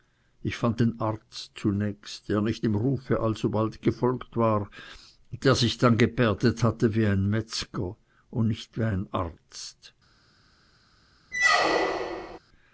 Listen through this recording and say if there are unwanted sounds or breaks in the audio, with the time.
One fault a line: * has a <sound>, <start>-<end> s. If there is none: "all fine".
* has a squeak, 11.3-12.4 s